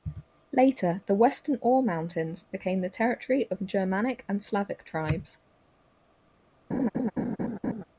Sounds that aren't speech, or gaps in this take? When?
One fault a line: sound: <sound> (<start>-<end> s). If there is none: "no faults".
sound: laugh (6.7-7.8 s)